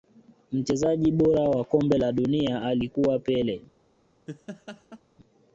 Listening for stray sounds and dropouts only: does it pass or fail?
fail